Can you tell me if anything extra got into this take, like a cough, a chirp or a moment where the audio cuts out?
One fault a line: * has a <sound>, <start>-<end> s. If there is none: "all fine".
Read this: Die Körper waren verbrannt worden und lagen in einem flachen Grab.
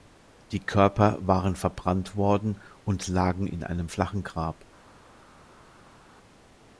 all fine